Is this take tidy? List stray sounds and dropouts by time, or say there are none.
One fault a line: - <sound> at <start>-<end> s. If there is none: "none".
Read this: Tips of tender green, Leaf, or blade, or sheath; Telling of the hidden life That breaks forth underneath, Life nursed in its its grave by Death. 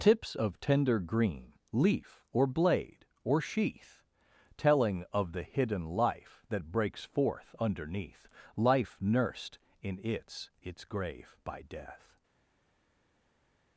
none